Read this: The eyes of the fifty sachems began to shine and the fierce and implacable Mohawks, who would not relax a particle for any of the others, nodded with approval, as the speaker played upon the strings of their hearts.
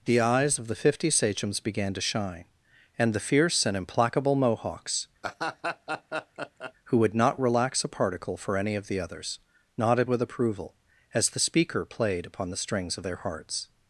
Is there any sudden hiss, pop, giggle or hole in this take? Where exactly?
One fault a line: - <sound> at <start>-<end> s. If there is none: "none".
- laugh at 5.2-6.7 s